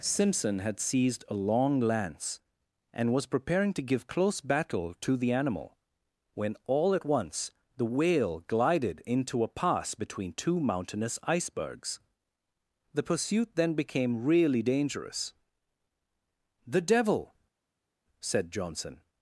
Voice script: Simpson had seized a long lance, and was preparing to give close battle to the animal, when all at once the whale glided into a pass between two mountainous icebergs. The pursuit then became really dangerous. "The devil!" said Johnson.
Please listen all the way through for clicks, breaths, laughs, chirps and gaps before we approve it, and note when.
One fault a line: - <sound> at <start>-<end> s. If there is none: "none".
none